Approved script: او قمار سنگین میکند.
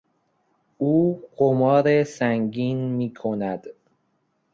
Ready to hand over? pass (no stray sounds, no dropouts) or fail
pass